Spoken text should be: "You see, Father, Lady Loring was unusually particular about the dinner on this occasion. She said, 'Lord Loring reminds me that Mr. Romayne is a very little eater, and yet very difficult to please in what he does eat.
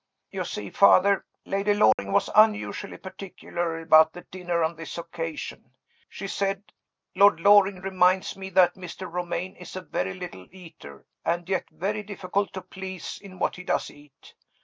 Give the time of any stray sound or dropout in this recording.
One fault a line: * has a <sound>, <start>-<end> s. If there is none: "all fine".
* has a dropout, 1.9-2.0 s